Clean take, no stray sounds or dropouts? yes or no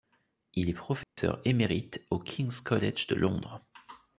no